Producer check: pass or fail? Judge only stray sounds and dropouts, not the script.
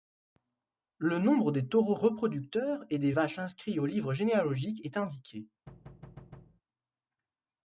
fail